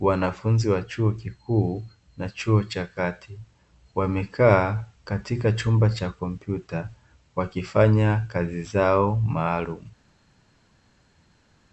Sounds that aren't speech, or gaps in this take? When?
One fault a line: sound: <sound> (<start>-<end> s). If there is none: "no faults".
no faults